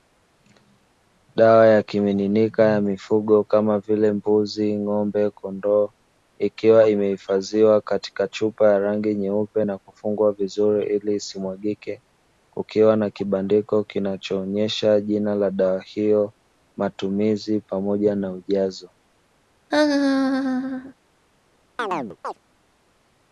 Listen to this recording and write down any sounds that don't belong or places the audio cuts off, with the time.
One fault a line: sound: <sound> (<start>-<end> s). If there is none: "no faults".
sound: laugh (19.7-20.9 s)
sound: chirp (21.8-22.4 s)